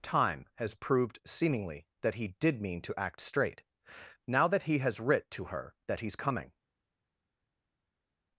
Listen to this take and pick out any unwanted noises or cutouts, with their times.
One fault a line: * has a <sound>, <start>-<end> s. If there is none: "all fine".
all fine